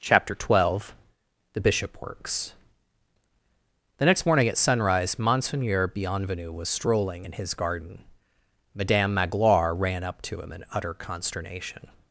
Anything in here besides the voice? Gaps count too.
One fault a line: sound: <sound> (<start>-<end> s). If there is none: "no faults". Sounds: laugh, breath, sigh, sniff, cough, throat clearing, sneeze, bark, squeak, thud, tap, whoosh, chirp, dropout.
no faults